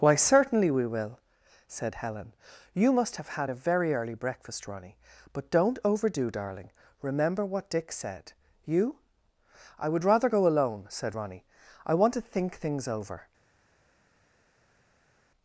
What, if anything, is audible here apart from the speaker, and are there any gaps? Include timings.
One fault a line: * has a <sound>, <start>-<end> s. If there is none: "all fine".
all fine